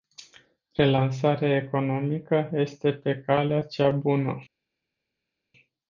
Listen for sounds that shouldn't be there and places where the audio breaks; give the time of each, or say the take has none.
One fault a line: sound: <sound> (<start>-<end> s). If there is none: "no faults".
no faults